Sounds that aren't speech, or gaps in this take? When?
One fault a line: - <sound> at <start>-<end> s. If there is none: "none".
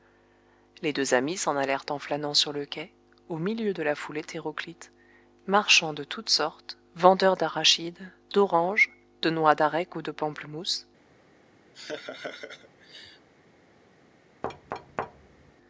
- laugh at 11.7-13.3 s
- thud at 14.4-15.5 s